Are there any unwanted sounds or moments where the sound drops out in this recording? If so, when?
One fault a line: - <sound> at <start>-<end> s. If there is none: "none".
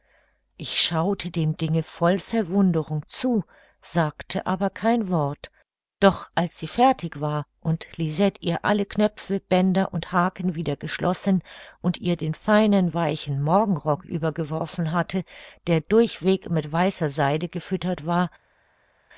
none